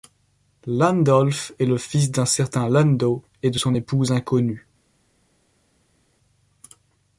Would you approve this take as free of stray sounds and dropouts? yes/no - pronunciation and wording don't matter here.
yes